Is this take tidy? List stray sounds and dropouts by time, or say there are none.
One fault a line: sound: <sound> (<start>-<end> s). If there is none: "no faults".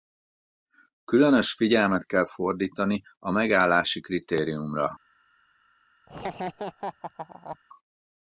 sound: laugh (6.1-7.6 s)